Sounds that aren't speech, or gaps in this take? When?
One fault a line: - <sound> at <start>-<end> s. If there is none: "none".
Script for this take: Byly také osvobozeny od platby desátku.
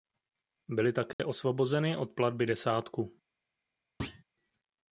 - dropout at 1.1-1.2 s
- thud at 4.0-4.2 s